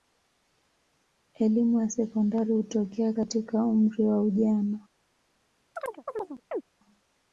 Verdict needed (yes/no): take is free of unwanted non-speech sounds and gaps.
no